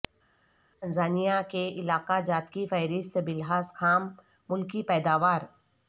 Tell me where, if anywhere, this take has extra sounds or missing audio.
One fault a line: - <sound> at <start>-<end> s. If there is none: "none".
none